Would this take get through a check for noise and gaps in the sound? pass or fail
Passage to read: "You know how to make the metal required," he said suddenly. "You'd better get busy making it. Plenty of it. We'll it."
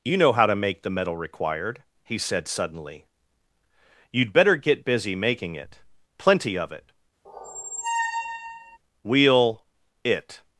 fail